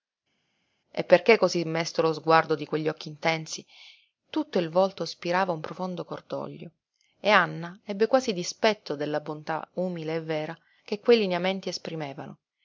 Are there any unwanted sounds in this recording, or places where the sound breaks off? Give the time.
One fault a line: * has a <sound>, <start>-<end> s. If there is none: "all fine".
all fine